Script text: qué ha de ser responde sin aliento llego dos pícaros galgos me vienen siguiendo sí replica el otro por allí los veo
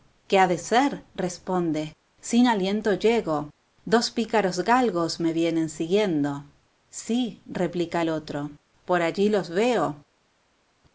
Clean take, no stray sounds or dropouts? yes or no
yes